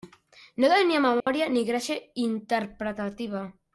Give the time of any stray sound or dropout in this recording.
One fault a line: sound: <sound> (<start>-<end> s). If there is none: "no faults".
sound: dropout (1.2-1.3 s)